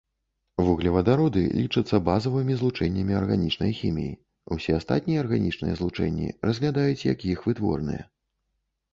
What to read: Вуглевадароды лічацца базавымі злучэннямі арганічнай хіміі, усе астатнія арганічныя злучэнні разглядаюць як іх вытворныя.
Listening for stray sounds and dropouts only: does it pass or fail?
pass